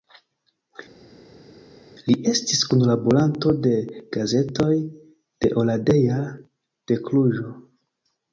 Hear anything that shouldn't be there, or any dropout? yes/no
no